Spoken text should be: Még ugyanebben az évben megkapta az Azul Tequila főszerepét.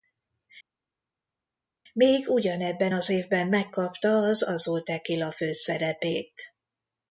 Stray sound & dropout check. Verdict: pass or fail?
pass